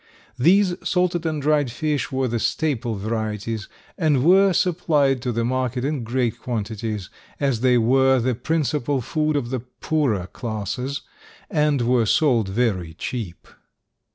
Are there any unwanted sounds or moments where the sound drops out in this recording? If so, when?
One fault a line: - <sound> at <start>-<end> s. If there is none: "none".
none